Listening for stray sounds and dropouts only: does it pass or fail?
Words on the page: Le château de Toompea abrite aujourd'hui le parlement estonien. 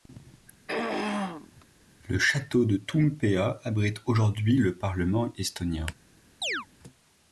fail